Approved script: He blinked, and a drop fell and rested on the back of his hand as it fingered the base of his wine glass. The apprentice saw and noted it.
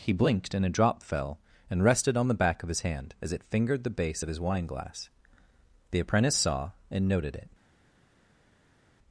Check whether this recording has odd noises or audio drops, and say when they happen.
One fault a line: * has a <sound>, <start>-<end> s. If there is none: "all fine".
all fine